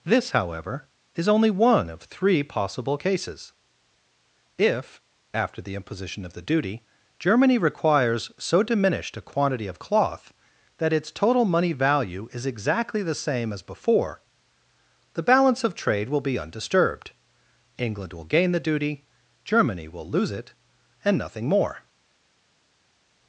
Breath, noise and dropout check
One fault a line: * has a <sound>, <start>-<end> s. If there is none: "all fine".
all fine